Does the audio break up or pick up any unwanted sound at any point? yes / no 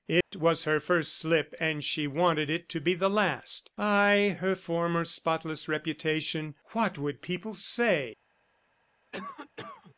yes